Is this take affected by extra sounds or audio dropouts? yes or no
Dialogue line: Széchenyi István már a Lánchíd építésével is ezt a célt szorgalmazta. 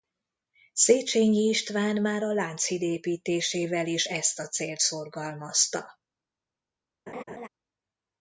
yes